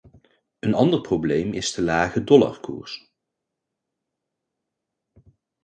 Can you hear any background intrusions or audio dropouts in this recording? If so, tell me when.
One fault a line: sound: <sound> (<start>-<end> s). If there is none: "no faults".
no faults